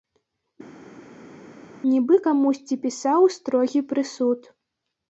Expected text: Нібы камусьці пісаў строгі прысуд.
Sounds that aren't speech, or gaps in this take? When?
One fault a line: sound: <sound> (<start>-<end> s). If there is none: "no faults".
no faults